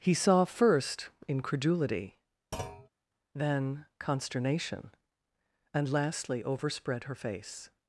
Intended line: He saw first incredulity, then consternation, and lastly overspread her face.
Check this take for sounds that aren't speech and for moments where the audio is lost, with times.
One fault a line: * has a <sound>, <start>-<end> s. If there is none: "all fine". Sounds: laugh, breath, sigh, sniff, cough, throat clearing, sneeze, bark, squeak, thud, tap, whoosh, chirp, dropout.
* has a thud, 2.5-2.9 s